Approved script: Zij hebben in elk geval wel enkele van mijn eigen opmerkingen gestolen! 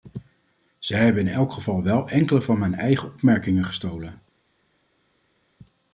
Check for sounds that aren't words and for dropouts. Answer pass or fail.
pass